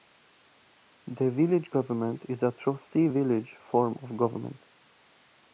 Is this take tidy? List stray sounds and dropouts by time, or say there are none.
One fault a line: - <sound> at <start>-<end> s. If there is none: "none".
none